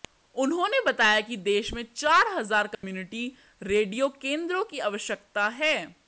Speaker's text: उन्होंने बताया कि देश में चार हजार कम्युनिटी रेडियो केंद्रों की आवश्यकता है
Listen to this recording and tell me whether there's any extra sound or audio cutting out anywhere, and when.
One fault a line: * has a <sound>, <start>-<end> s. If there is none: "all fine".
* has a dropout, 2.7-2.8 s